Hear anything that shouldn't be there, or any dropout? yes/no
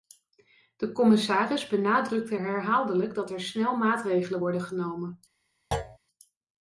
yes